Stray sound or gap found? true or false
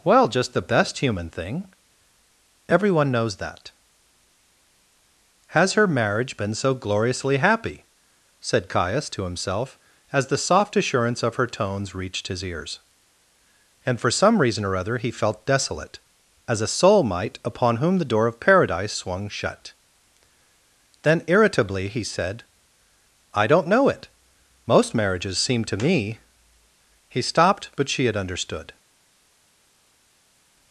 false